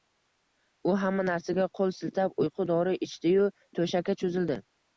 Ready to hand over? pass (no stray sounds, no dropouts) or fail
pass